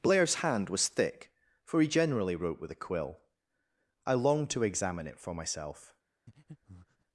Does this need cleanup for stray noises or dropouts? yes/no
yes